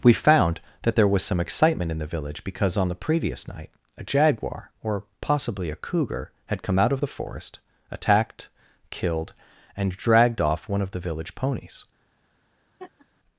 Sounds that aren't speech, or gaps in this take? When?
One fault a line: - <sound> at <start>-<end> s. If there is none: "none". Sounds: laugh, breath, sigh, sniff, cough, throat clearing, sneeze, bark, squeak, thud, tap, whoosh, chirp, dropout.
- laugh at 12.8-13.1 s